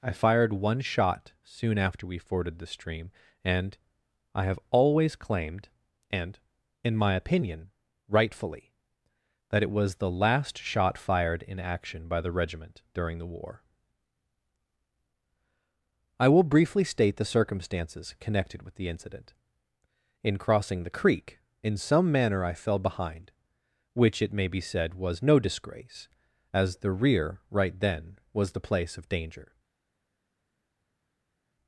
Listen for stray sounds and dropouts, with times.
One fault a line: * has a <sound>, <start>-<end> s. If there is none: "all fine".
all fine